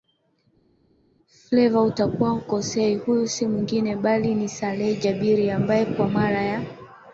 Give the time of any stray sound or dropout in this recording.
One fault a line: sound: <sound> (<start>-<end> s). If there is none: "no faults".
no faults